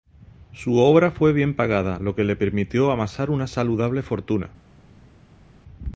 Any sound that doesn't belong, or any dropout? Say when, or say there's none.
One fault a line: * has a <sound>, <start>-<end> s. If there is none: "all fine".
all fine